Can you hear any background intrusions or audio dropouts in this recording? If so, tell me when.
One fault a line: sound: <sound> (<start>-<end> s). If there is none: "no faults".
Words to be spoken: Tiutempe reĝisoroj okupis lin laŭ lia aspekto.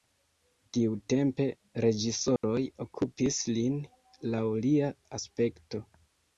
sound: dropout (2.4-2.4 s)